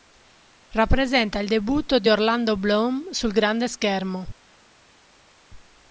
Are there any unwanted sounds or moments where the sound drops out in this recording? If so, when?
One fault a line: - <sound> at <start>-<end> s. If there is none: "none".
none